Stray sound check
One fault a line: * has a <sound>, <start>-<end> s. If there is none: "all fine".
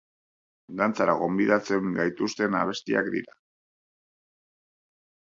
all fine